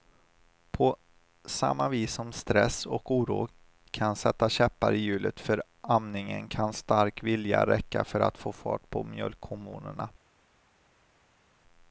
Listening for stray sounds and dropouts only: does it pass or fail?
pass